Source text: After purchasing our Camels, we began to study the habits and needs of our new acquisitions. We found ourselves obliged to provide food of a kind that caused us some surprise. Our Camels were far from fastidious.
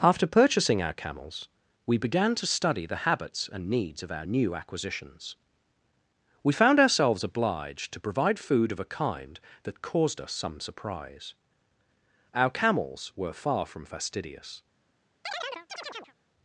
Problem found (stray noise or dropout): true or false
true